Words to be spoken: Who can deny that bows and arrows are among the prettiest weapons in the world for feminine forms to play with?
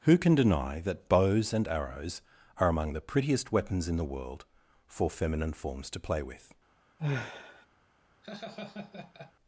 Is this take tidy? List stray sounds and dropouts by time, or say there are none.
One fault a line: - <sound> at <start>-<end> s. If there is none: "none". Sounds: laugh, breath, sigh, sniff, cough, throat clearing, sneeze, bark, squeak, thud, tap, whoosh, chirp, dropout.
- sigh at 7.0-7.7 s
- laugh at 8.2-9.3 s